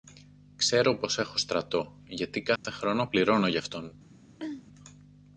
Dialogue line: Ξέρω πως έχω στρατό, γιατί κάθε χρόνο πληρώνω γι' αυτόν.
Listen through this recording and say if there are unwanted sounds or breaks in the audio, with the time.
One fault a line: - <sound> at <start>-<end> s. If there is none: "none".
- dropout at 2.6-2.6 s
- throat clearing at 4.4-4.7 s